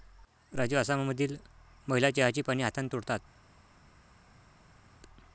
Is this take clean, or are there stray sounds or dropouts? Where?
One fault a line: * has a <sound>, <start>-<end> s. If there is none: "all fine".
all fine